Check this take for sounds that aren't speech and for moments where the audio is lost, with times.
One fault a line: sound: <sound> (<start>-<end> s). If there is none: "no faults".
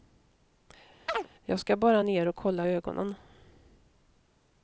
sound: chirp (1.1-1.3 s)